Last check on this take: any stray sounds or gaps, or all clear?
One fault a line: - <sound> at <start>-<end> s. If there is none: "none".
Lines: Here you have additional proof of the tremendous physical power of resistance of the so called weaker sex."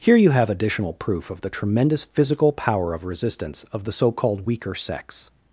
none